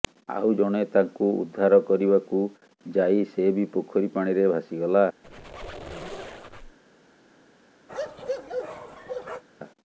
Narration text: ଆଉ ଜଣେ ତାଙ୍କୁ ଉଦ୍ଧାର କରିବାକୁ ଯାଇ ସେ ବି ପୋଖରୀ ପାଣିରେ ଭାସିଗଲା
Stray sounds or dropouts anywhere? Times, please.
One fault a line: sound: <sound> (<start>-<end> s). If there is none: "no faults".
sound: squeak (5.2-6.8 s)
sound: bark (7.9-9.4 s)